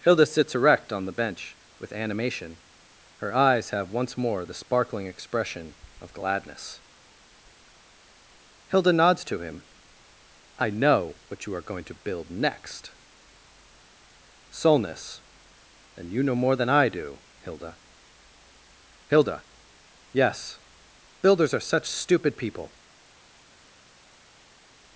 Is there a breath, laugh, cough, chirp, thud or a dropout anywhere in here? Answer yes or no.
no